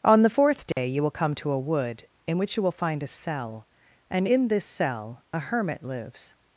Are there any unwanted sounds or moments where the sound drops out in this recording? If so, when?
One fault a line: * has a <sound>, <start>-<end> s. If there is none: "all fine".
* has a dropout, 0.7-0.8 s